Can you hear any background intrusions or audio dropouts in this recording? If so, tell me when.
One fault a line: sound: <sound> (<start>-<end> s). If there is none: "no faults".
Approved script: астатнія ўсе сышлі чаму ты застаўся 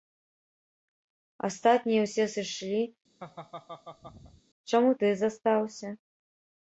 sound: laugh (3.2-4.4 s)